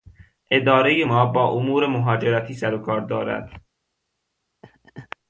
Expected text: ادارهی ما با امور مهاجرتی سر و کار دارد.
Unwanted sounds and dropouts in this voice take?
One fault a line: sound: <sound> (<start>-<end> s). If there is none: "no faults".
sound: laugh (4.6-5.2 s)